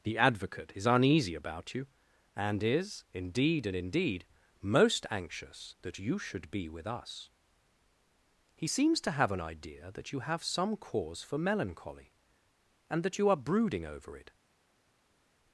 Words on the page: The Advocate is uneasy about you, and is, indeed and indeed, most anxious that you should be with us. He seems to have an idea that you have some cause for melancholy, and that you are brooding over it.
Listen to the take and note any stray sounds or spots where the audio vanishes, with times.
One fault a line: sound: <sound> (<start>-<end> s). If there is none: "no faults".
no faults